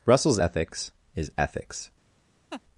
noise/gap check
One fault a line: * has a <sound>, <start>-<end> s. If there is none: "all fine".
* has a laugh, 2.5-2.6 s